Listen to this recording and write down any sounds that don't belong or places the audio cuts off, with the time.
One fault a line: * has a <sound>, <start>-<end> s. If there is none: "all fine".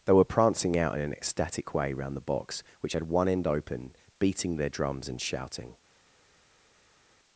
all fine